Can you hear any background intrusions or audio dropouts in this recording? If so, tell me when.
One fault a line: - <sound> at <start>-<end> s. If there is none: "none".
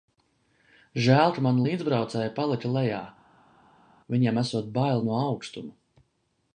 none